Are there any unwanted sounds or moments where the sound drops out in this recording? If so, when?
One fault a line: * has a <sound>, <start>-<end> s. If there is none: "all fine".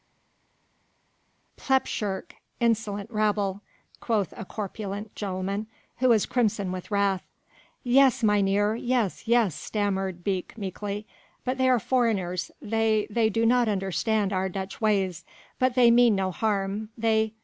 all fine